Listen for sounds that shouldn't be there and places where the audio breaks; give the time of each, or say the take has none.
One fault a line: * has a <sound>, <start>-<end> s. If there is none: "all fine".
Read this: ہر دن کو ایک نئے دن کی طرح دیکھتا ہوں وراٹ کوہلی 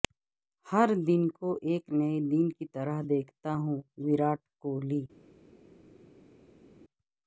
all fine